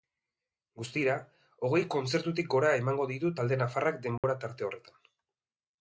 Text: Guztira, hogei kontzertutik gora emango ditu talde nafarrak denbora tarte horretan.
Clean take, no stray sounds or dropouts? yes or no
no